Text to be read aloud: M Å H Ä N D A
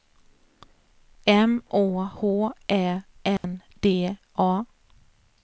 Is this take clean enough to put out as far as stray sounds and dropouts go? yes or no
no